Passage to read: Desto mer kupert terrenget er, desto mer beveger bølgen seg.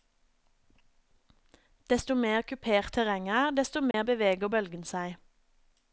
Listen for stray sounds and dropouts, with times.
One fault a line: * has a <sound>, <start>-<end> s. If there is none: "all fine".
* has a dropout, 3.9-3.9 s